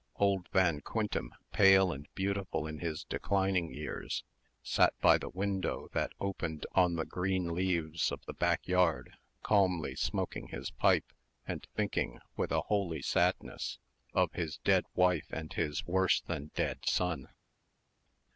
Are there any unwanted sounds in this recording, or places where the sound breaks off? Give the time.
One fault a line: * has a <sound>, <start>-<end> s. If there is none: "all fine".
all fine